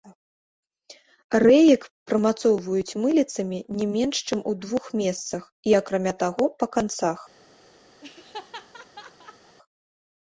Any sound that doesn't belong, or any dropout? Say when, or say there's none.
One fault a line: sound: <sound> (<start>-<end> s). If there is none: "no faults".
sound: laugh (8.0-9.6 s)